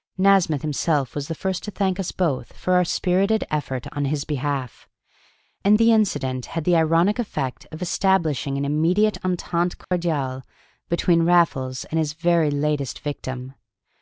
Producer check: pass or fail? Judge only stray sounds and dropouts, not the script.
fail